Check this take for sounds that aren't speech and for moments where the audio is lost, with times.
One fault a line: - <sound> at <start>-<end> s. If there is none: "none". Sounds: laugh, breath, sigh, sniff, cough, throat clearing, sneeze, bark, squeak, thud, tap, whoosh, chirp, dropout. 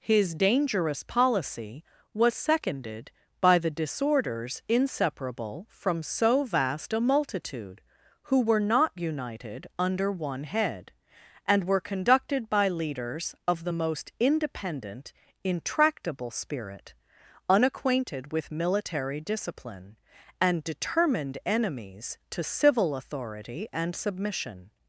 none